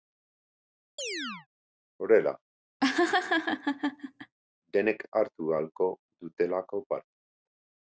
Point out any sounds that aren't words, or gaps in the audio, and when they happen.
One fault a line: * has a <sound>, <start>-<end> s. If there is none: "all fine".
* has a chirp, 1.0-1.5 s
* has a laugh, 2.8-4.4 s